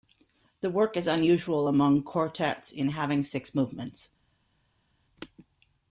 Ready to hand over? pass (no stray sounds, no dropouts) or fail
pass